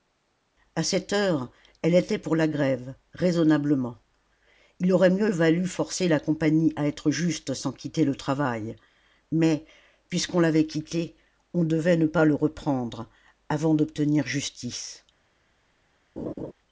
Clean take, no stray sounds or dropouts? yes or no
no